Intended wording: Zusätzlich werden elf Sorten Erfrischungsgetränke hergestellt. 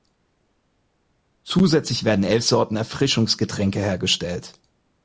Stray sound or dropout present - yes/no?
no